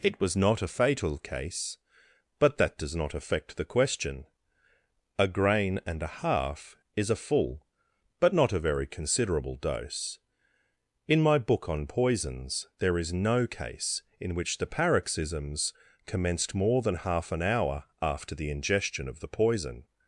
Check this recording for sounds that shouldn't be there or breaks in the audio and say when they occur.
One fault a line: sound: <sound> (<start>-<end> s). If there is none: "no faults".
no faults